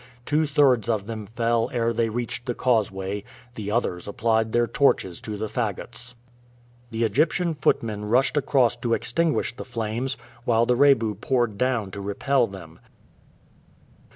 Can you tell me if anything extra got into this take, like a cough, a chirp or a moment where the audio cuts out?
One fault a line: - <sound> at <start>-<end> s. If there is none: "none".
none